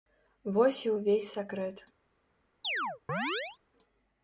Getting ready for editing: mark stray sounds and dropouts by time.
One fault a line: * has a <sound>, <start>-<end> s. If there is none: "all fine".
* has a chirp, 2.6-3.6 s